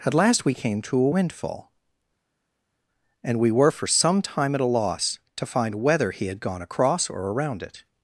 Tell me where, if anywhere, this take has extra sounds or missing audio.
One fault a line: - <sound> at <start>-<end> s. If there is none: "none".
none